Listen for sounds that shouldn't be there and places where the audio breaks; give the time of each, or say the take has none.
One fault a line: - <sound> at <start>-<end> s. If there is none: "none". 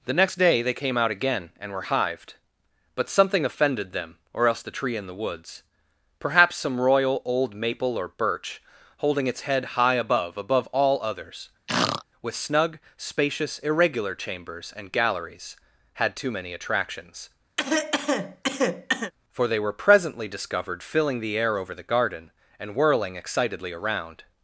- throat clearing at 11.7-12.0 s
- cough at 17.6-19.1 s